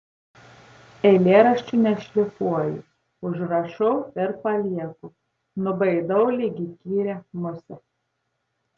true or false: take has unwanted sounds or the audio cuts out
false